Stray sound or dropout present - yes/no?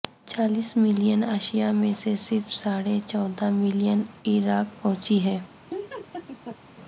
yes